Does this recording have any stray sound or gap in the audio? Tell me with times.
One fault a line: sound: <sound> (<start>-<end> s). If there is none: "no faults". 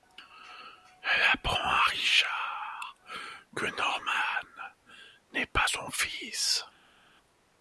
no faults